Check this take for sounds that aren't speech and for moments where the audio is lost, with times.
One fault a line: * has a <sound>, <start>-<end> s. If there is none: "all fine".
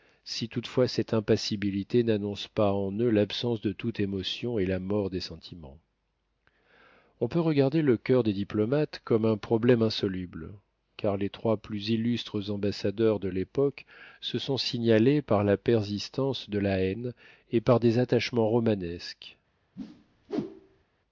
* has a whoosh, 19.8-20.8 s